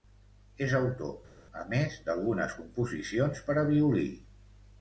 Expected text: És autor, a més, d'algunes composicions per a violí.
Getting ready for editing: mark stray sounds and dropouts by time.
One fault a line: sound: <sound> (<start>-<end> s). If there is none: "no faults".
no faults